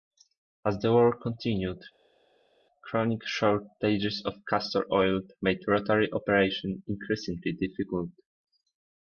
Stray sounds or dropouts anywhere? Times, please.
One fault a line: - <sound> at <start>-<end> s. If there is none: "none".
none